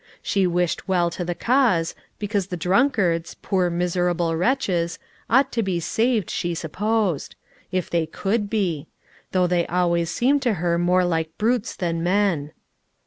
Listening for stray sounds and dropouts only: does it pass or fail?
pass